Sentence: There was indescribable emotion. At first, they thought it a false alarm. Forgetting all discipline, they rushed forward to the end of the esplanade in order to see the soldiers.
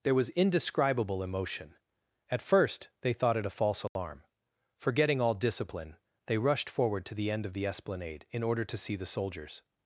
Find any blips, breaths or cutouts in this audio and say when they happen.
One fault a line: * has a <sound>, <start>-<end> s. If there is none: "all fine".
* has a dropout, 3.9-4.0 s